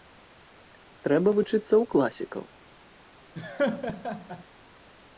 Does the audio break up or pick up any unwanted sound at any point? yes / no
yes